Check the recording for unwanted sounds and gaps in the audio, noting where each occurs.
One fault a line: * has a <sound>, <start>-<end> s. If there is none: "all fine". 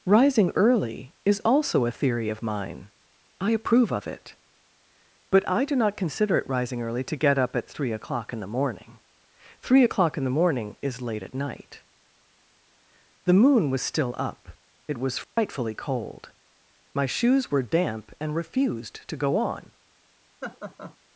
* has a dropout, 15.2-15.4 s
* has a laugh, 20.4-21.0 s